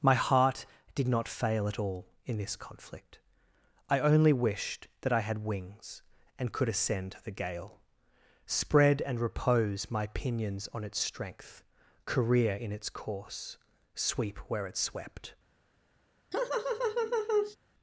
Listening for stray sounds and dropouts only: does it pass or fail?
fail